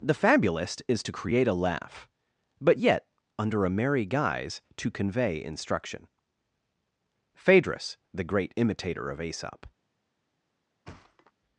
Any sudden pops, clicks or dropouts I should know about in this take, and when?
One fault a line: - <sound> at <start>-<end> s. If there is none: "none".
- thud at 10.9-11.3 s